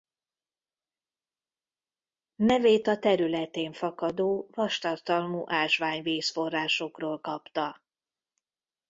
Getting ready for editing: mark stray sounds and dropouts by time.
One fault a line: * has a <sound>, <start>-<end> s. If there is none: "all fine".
all fine